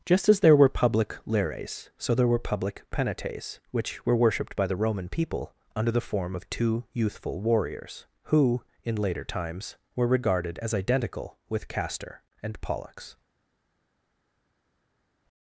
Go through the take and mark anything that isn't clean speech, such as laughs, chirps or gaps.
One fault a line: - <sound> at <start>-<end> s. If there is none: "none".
none